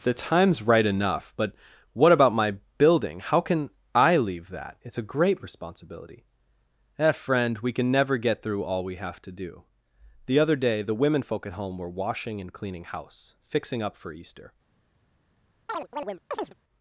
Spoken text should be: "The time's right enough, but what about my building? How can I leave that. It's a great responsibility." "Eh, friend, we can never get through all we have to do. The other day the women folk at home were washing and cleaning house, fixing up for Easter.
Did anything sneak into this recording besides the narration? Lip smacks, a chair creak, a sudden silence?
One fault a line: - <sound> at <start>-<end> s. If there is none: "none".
- chirp at 15.7-16.5 s